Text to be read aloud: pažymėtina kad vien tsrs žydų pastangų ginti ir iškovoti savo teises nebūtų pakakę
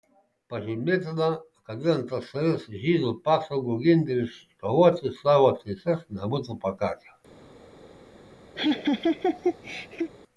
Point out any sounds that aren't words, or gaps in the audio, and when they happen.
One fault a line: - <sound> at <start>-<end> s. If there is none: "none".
- laugh at 8.6-10.1 s